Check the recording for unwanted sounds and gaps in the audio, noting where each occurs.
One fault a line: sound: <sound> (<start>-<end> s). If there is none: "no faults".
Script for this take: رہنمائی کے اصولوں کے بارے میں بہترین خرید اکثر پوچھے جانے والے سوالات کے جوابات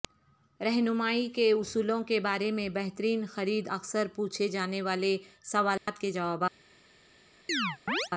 sound: dropout (5.8-5.9 s)
sound: chirp (7.5-8.1 s)